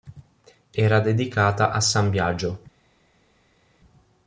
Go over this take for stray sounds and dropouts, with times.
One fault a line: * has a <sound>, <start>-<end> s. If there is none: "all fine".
all fine